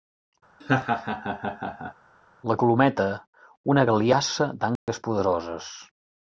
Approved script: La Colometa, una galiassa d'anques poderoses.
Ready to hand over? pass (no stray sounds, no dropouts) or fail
fail